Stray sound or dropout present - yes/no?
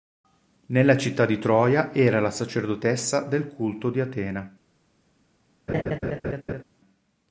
yes